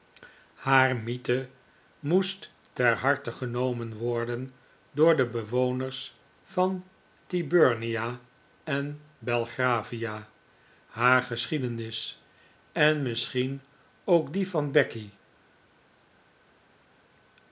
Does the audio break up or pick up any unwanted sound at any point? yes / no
no